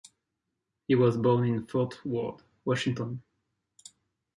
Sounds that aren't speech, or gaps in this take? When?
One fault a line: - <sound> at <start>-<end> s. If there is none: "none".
none